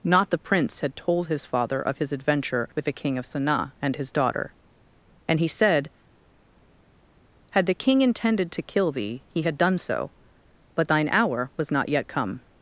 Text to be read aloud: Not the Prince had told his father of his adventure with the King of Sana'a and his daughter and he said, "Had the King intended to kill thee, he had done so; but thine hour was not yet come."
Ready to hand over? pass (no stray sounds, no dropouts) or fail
pass